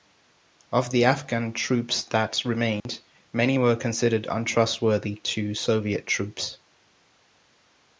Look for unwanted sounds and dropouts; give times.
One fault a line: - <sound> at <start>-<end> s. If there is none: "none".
- dropout at 2.8-2.9 s